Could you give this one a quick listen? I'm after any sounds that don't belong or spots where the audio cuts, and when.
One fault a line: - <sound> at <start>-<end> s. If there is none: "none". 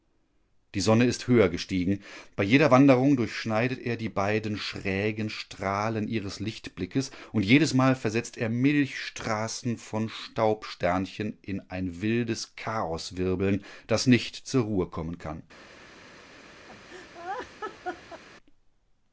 - laugh at 16.7-18.2 s